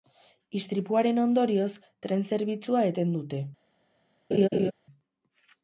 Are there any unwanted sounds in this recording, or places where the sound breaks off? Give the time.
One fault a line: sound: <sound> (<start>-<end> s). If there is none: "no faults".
sound: laugh (4.3-4.7 s)